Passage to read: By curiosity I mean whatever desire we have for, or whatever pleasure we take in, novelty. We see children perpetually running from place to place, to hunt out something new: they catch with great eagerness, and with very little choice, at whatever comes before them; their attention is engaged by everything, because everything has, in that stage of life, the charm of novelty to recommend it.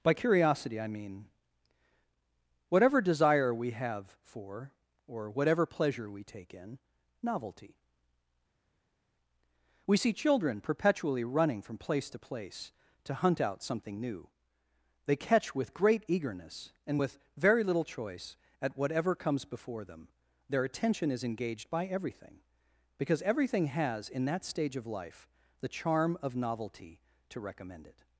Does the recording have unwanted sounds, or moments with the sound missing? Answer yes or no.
no